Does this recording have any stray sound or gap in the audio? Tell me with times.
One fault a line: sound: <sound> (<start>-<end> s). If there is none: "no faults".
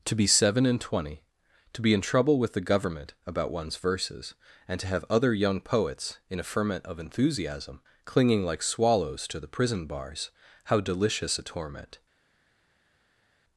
no faults